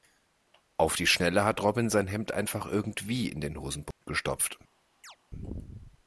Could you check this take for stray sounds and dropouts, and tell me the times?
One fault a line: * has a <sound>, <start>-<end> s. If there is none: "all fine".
* has a dropout, 3.9-4.0 s
* has a chirp, 5.0-5.2 s